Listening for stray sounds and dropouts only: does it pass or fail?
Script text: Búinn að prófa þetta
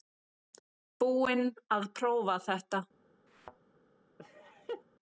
fail